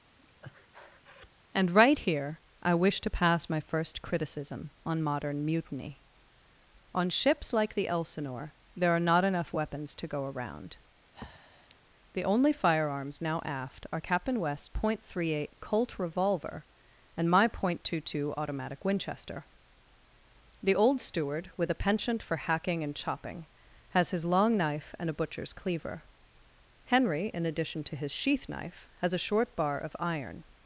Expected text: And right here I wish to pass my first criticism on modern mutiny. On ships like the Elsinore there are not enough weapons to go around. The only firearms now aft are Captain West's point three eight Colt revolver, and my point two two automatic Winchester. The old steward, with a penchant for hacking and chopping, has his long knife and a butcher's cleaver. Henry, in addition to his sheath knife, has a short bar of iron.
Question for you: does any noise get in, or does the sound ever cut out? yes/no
yes